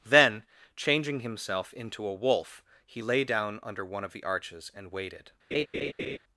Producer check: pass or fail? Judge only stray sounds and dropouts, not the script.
fail